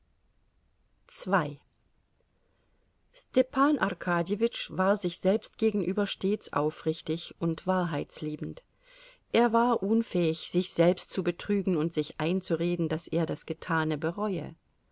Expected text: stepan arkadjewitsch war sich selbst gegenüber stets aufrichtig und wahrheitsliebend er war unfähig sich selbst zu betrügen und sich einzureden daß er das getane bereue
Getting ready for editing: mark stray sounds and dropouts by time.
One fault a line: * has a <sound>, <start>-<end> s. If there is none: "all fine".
all fine